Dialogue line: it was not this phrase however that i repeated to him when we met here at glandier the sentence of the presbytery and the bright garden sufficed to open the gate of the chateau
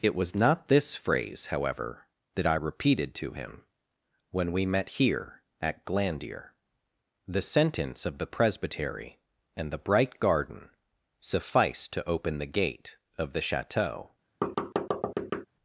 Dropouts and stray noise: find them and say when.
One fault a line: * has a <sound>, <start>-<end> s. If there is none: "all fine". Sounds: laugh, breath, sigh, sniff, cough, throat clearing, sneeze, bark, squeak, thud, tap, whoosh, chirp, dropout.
* has a thud, 14.4-15.5 s